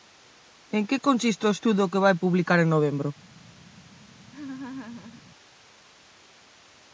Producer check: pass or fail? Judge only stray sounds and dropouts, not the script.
fail